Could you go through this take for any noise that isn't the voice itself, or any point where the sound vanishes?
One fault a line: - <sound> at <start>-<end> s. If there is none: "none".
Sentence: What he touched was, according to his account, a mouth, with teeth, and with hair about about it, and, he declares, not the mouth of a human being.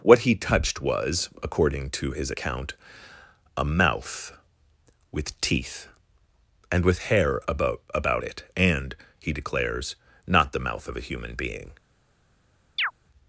- chirp at 12.8-12.9 s